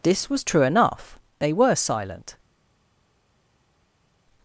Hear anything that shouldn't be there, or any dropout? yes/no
no